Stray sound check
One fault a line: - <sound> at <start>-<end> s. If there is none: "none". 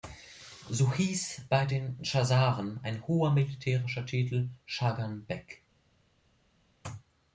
none